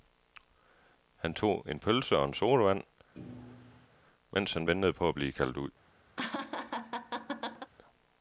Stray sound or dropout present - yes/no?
yes